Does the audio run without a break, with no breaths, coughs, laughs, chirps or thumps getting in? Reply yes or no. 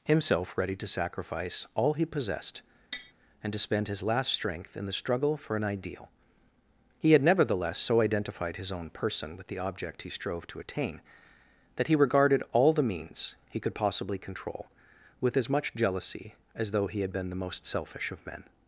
no